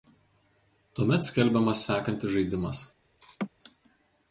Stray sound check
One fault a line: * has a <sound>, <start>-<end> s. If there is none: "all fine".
* has a laugh, 3.2-3.5 s